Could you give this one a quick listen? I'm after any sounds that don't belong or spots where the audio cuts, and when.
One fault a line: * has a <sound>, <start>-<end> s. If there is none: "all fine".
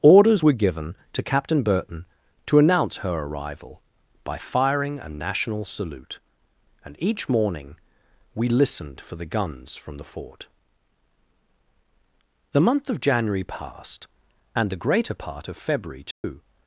* has a dropout, 16.1-16.2 s